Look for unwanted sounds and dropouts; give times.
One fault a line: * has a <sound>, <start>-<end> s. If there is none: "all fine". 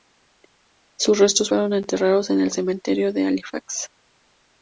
all fine